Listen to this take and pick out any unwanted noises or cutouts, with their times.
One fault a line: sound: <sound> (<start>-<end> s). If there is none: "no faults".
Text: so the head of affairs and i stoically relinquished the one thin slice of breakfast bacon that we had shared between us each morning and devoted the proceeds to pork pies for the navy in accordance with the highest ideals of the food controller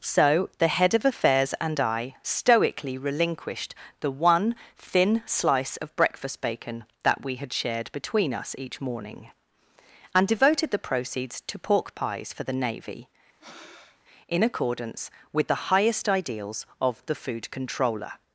sound: breath (13.4-14.0 s)